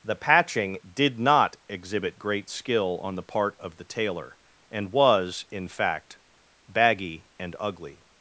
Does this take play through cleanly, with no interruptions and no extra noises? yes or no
yes